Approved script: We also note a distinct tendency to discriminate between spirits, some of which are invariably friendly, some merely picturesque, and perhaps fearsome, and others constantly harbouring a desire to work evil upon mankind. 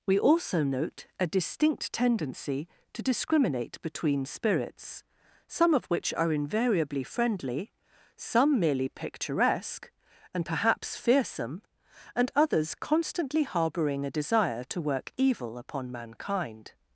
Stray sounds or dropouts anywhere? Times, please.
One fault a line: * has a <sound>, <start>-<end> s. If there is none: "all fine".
all fine